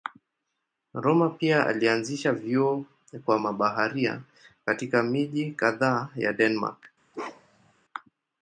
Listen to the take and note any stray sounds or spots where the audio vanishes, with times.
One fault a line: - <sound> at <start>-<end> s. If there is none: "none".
- bark at 7.1-7.7 s